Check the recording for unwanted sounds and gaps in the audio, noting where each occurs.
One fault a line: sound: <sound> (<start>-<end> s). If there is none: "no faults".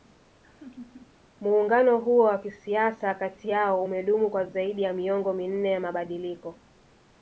sound: laugh (0.4-1.2 s)